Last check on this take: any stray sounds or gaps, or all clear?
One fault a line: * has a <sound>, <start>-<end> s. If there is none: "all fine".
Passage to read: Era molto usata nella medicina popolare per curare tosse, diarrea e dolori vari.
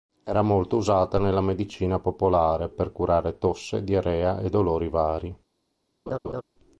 * has a laugh, 6.1-6.4 s